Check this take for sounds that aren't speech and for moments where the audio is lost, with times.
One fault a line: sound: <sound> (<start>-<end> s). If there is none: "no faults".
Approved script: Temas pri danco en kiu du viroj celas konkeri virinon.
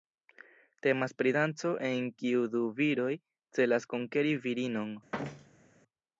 sound: thud (5.1-5.8 s)